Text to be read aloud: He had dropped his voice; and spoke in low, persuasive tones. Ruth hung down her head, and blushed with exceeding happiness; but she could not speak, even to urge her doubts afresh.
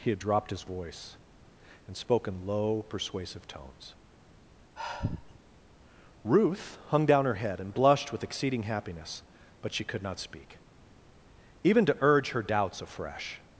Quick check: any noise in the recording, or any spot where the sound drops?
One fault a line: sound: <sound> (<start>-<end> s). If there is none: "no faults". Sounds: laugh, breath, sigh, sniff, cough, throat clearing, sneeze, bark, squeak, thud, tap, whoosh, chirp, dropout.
sound: sigh (4.8-5.4 s)